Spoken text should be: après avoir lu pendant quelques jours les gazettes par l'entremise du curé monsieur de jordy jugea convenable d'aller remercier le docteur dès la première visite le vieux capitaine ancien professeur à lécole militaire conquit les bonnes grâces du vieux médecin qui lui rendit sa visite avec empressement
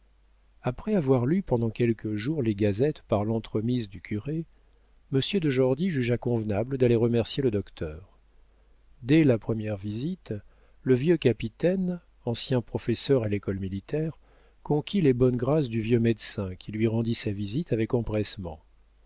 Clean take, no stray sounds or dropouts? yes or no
yes